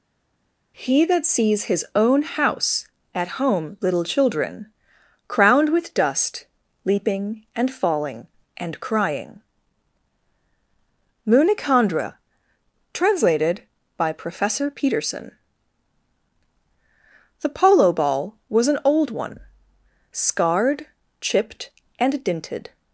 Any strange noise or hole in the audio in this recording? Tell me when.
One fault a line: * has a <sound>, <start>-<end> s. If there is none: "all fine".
all fine